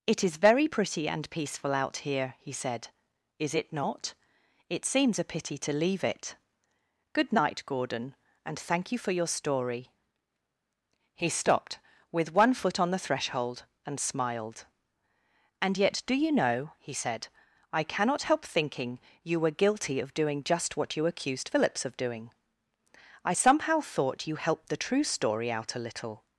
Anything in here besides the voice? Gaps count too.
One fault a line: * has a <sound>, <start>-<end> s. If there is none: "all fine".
all fine